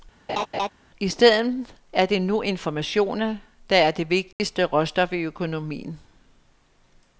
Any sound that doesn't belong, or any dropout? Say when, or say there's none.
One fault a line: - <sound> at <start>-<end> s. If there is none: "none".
- laugh at 0.3-0.7 s
- dropout at 4.3-4.4 s